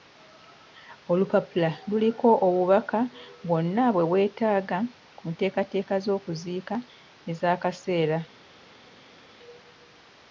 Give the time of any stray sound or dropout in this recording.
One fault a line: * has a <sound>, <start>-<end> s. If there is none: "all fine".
all fine